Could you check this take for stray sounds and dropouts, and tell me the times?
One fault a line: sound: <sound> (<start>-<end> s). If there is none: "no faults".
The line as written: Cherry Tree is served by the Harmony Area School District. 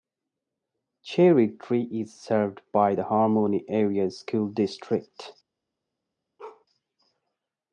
sound: bark (6.4-6.7 s)